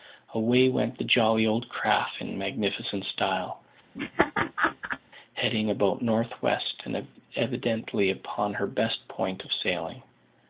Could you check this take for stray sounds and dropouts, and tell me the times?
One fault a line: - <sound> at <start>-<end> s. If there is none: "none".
- laugh at 3.9-5.0 s